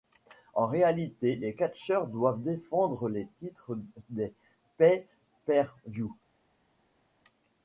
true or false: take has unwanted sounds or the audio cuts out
false